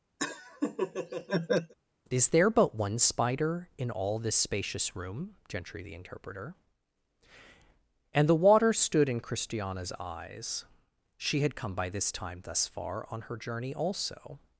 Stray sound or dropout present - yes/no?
yes